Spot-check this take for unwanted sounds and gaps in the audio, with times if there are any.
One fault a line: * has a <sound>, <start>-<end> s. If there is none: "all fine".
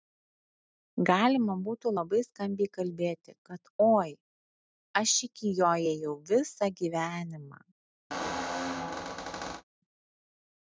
* has a squeak, 8.1-9.6 s